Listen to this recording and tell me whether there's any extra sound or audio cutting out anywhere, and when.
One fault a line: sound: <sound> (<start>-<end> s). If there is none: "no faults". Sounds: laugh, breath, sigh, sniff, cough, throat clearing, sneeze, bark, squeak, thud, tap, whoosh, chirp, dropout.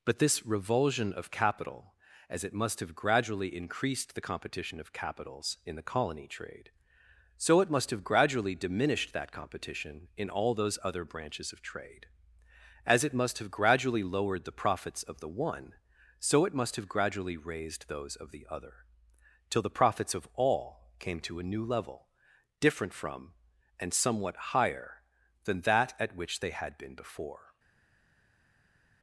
no faults